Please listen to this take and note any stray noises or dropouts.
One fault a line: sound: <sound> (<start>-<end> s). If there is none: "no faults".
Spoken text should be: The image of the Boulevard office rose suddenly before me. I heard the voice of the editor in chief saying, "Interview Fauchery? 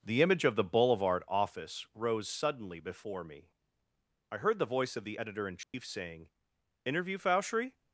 sound: dropout (5.6-5.7 s)